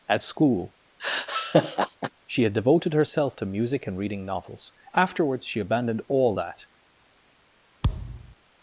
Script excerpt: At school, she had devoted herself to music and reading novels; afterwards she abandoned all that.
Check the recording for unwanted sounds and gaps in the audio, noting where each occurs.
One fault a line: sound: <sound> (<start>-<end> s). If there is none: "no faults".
sound: laugh (1.0-2.1 s)
sound: thud (7.8-8.3 s)